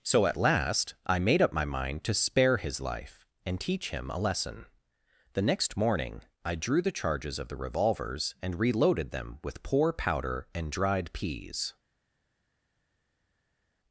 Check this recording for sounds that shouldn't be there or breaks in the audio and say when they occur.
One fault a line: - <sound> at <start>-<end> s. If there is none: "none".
none